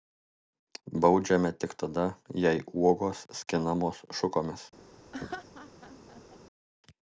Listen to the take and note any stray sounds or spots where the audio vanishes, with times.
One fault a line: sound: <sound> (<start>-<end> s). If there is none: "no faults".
sound: laugh (5.1-6.4 s)